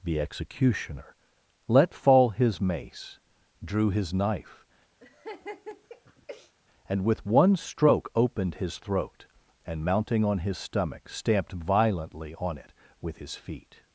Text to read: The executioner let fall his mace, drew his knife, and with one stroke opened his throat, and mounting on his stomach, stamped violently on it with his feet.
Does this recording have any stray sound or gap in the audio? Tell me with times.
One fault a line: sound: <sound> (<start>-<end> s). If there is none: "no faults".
sound: laugh (5.0-6.5 s)